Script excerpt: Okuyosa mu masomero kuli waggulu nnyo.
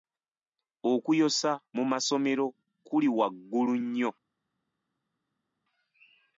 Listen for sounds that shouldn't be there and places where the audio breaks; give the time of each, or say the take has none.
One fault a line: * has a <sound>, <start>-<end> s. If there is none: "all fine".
all fine